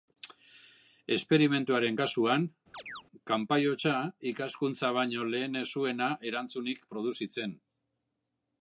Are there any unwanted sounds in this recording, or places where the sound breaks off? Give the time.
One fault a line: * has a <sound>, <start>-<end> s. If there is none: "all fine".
* has a chirp, 2.7-3.0 s